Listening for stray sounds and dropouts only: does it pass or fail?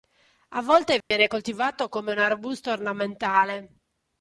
fail